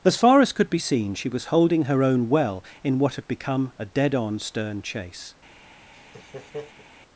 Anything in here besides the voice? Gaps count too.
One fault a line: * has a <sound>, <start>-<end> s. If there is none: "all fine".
* has a laugh, 5.9-6.9 s